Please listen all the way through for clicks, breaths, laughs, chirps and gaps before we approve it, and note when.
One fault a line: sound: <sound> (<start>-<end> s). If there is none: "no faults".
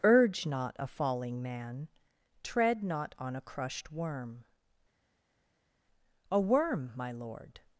no faults